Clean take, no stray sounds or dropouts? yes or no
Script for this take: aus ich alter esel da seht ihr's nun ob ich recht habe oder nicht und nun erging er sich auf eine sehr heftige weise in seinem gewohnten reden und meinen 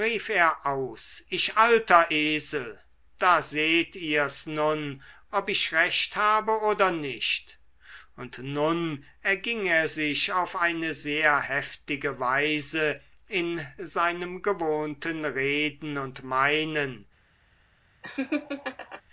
no